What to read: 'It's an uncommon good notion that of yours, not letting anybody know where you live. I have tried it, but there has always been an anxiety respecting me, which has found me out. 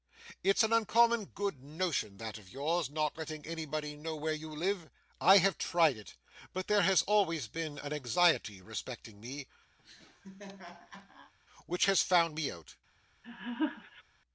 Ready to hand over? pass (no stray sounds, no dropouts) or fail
fail